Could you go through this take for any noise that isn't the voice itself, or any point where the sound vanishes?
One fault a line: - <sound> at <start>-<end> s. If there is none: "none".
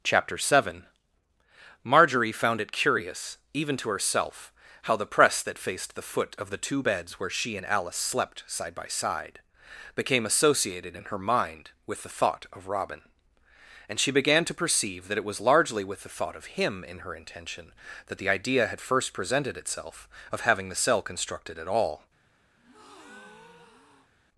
- breath at 22.6-24.1 s